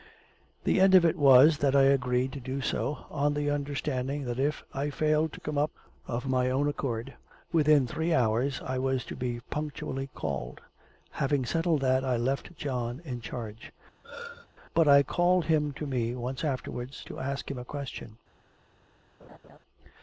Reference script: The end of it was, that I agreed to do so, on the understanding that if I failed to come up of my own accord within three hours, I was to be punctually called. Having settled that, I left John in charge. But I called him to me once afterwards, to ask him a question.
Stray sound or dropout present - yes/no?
yes